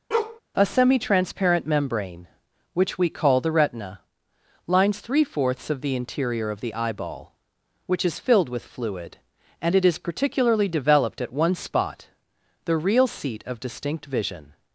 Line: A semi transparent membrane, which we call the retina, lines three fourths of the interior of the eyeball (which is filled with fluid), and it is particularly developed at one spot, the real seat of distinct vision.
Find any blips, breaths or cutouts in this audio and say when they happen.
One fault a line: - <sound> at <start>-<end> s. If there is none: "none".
- bark at 0.1-0.4 s